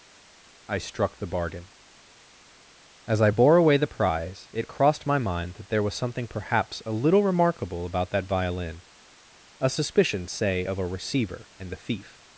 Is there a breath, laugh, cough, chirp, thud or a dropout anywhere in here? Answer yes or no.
no